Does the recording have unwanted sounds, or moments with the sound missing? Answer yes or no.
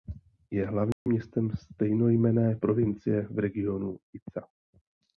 yes